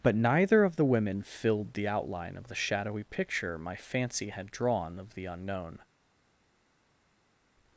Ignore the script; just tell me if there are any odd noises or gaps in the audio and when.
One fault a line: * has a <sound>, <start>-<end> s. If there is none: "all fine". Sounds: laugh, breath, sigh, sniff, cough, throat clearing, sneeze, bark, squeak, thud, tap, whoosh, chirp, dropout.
all fine